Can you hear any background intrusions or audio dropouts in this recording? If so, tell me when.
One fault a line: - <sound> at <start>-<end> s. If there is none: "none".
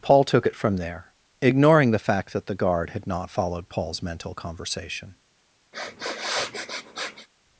- sniff at 5.7-7.3 s